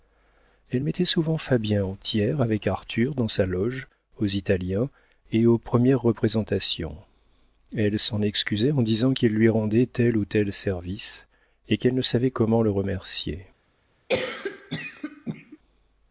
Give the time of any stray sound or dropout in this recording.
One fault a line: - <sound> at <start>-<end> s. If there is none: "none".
- cough at 14.1-15.6 s